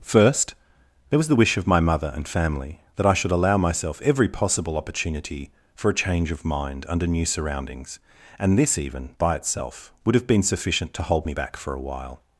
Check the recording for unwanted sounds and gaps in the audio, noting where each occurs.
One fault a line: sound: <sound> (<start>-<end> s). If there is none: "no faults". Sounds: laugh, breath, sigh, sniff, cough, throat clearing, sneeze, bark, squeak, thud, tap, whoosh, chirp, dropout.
no faults